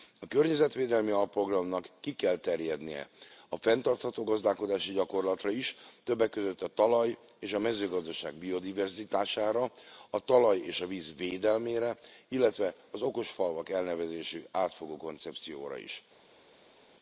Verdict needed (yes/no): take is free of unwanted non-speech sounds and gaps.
yes